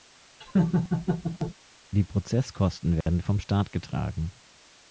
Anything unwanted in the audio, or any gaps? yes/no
yes